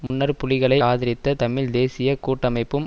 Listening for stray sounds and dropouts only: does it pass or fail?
fail